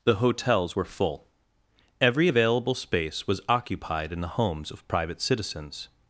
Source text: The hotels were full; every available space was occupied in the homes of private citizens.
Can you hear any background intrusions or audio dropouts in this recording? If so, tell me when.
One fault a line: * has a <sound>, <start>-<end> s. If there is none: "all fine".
all fine